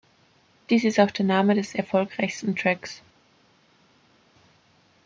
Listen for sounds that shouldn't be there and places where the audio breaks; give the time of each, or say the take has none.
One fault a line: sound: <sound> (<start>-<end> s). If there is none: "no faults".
no faults